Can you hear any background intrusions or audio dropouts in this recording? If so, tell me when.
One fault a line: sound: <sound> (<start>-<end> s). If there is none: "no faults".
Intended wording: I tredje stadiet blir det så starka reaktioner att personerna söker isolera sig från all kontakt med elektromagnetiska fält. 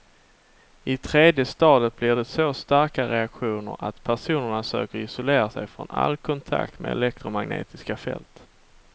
no faults